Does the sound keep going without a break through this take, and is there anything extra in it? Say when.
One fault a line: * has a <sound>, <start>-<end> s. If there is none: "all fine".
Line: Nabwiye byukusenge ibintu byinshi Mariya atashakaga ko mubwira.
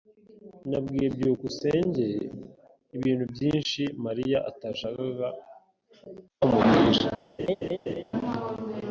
* has a laugh, 7.4-8.0 s